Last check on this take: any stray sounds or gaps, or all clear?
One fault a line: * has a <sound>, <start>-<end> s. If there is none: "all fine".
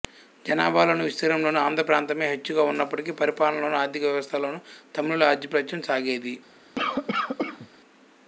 * has a cough, 6.8-7.7 s